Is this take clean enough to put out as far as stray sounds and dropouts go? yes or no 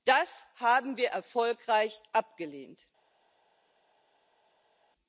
yes